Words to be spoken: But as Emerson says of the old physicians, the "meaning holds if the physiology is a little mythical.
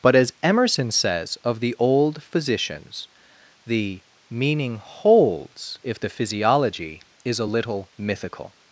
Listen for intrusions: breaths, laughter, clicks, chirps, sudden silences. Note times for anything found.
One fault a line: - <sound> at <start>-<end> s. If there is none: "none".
none